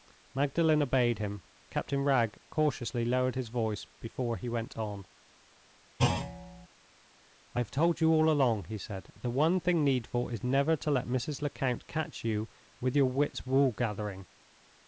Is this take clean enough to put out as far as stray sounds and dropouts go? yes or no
no